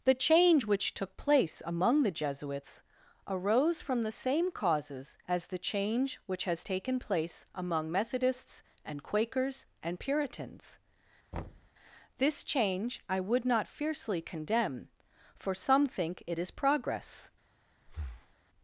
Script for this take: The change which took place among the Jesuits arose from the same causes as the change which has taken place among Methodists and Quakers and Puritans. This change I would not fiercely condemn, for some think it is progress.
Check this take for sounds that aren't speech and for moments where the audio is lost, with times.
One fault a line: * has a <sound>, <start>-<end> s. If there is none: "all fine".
* has a thud, 11.3-11.7 s
* has a breath, 17.9-18.4 s